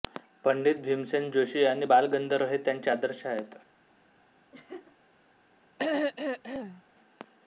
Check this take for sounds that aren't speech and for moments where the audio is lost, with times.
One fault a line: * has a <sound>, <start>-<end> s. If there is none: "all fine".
* has a laugh, 4.5-5.0 s
* has a throat clearing, 5.8-6.8 s